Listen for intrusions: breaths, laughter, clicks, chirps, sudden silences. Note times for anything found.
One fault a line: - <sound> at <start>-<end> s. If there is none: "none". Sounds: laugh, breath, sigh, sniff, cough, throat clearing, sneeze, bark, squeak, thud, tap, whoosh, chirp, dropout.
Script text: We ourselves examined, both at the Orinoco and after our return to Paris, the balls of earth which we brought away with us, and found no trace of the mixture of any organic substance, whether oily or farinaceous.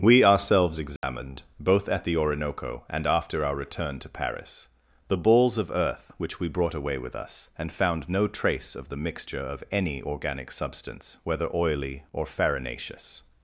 - dropout at 1.0-1.0 s